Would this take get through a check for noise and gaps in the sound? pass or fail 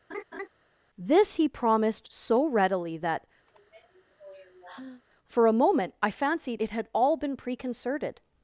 fail